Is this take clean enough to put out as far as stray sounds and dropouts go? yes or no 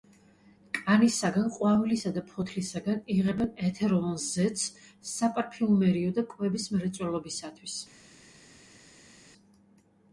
yes